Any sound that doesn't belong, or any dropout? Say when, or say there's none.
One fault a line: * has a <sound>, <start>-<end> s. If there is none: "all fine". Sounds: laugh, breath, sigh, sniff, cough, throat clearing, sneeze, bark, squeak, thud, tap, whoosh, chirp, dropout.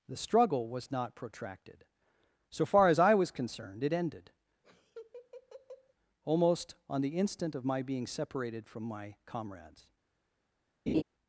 * has a laugh, 4.6-5.9 s
* has a laugh, 10.9-11.0 s